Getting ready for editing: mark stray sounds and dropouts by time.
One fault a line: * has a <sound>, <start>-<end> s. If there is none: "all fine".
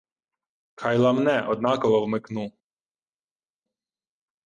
all fine